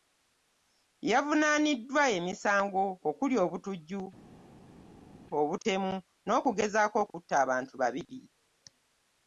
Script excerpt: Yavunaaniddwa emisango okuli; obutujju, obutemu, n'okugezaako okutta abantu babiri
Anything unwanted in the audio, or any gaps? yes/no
no